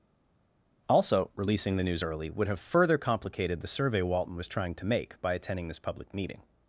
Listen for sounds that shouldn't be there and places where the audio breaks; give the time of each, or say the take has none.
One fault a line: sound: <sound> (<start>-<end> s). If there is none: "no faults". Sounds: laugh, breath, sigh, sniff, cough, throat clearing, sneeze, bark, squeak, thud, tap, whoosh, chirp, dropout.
no faults